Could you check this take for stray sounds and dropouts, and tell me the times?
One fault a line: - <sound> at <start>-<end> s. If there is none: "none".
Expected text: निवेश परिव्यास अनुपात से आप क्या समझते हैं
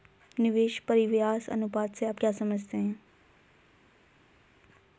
none